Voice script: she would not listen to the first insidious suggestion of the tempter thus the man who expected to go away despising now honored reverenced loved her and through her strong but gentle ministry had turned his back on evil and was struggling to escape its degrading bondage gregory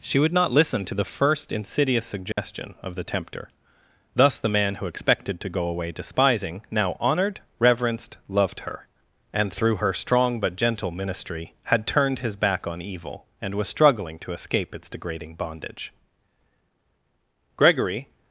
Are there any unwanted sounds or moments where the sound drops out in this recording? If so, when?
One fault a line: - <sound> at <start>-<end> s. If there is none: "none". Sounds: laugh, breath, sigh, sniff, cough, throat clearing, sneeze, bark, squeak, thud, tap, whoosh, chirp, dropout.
- dropout at 2.3-2.4 s